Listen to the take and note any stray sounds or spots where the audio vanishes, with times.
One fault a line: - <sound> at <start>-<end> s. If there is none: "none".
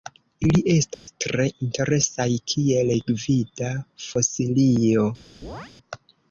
- dropout at 0.9-1.1 s
- chirp at 5.4-5.7 s